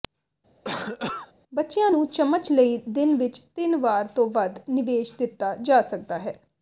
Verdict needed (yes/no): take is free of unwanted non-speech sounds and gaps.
no